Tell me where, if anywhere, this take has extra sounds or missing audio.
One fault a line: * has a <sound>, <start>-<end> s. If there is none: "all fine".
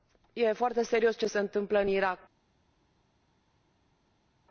all fine